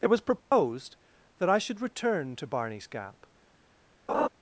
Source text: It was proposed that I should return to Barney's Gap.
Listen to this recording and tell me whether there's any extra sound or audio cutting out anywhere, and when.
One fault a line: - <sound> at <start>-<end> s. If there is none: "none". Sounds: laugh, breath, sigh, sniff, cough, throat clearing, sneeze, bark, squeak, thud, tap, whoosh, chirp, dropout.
- dropout at 0.4-0.5 s
- laugh at 4.1-4.3 s